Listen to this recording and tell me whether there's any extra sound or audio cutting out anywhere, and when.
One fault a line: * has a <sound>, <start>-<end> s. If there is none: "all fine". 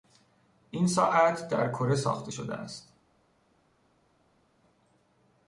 all fine